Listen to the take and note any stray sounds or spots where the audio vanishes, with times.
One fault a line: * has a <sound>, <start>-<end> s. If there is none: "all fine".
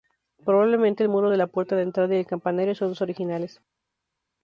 all fine